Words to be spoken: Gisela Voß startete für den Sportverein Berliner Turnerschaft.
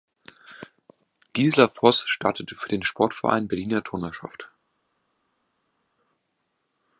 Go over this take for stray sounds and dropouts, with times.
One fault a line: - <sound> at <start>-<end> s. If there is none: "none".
none